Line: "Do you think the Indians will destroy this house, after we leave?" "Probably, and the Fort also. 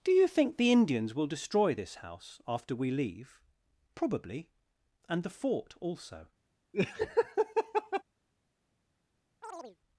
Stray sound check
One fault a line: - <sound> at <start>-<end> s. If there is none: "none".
- laugh at 6.7-8.0 s
- chirp at 9.4-9.8 s